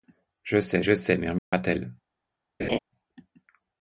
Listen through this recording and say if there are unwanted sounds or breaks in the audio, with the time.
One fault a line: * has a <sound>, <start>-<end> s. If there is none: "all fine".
* has a dropout, 1.4-1.5 s
* has a laugh, 2.6-2.8 s